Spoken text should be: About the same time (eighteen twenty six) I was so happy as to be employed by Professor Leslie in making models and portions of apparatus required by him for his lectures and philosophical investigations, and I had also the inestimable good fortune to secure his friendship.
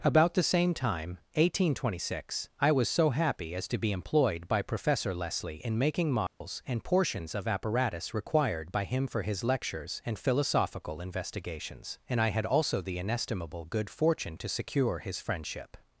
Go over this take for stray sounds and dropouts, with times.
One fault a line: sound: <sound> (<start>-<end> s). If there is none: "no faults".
sound: dropout (6.3-6.4 s)